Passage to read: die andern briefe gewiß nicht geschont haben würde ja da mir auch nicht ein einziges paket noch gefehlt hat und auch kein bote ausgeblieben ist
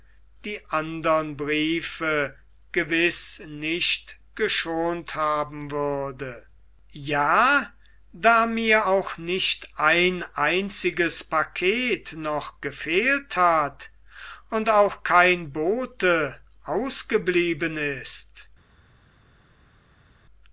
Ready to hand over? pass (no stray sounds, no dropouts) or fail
pass